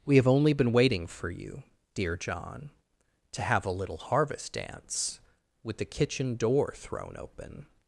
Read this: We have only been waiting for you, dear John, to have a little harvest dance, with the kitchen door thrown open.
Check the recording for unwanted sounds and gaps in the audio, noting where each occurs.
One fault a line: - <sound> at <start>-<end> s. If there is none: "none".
none